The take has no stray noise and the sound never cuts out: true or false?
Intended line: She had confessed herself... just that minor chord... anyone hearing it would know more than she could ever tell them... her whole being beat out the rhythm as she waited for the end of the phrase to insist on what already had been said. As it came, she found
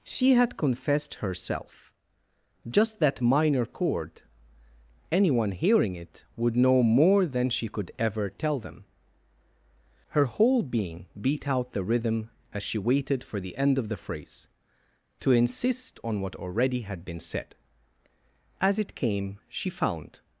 true